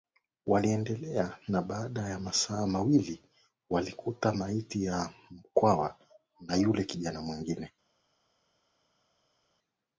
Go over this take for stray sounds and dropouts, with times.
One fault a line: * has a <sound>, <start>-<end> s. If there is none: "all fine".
all fine